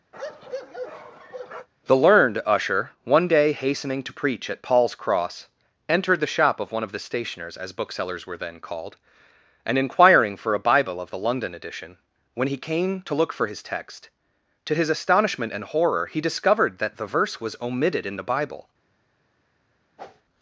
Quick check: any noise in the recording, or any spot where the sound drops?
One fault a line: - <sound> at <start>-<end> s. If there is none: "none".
- bark at 0.1-1.7 s
- whoosh at 20.0-20.2 s